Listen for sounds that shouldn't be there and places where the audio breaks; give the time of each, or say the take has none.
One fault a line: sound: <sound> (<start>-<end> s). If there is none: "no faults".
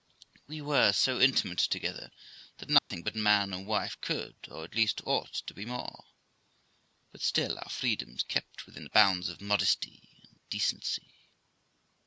sound: dropout (2.8-2.9 s)